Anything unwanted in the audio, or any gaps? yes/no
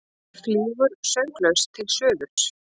yes